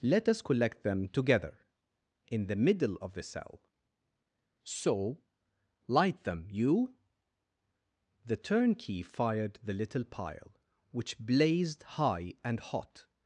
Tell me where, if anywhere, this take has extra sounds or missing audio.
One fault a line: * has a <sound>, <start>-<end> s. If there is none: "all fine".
all fine